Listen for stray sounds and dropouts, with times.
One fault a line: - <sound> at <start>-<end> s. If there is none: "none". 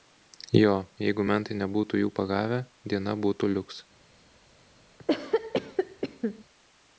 - cough at 5.0-6.4 s